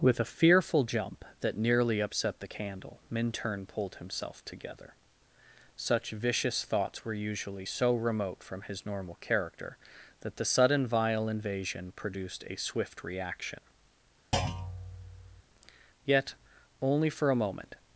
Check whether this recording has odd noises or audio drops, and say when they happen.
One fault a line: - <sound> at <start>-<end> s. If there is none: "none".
- thud at 14.3-15.4 s